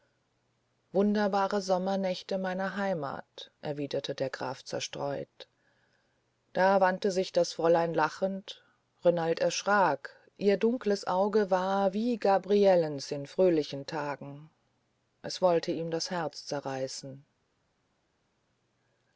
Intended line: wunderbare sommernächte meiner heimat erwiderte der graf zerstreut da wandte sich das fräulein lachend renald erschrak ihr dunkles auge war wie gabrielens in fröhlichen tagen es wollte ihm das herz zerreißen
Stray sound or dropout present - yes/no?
no